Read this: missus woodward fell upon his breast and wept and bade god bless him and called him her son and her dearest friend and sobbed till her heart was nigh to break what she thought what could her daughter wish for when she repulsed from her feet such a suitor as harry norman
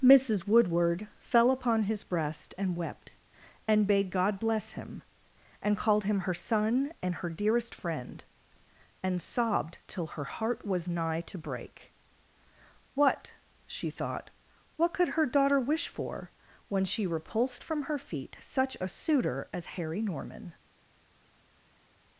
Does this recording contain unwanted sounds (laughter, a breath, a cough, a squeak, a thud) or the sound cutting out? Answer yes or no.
no